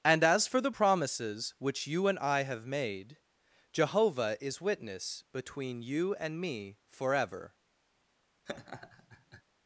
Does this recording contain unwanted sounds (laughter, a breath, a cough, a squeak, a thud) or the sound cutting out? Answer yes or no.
yes